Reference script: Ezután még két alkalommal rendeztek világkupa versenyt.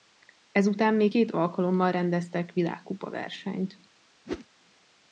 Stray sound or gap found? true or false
true